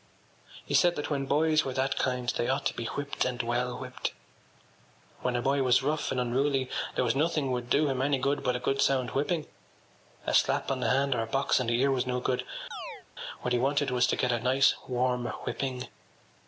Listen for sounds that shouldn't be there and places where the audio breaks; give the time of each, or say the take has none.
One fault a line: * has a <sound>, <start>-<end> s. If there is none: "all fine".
* has a chirp, 12.7-13.1 s